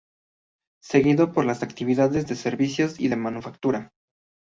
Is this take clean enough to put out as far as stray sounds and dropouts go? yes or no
yes